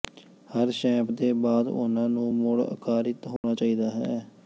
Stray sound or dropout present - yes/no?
yes